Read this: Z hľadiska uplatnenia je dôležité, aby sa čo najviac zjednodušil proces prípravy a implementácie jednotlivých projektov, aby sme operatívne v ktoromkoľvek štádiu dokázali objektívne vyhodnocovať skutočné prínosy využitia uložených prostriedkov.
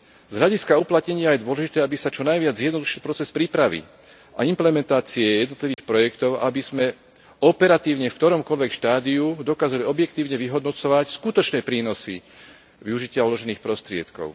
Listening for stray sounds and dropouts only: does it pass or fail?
fail